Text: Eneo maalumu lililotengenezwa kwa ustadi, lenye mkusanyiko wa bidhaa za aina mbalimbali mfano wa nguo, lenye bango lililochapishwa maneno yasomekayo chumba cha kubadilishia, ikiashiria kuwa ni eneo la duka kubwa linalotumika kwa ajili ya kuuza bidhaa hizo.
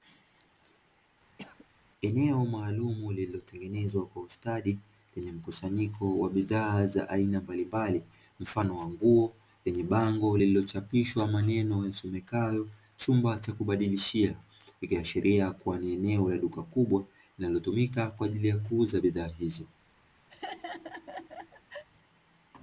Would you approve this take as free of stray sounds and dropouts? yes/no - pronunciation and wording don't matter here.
no